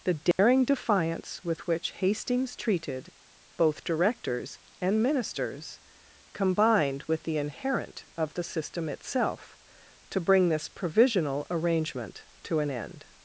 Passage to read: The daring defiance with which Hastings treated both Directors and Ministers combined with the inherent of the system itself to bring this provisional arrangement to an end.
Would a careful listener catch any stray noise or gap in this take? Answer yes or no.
yes